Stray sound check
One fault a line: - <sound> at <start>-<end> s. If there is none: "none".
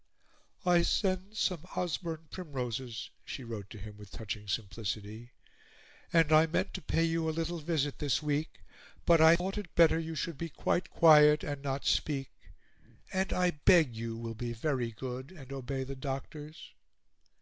none